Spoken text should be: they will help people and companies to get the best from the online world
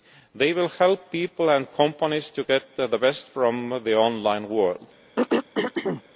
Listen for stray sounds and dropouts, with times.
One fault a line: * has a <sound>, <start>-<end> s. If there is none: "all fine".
* has a throat clearing, 5.2-6.0 s